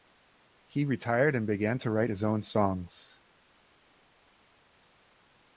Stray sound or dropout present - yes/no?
no